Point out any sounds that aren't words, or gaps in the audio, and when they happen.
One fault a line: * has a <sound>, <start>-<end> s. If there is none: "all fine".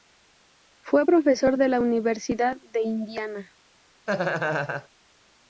* has a laugh, 4.1-4.9 s